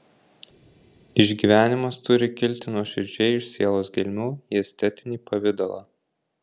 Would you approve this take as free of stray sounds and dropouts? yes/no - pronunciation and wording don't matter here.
yes